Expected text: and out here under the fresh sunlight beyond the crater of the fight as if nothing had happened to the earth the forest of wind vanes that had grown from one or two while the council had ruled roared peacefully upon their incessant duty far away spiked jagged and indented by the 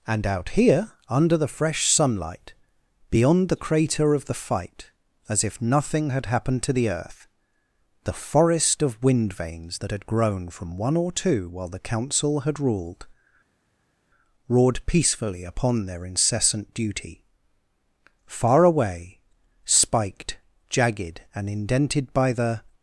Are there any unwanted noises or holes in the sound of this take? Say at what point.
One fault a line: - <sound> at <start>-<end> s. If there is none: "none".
none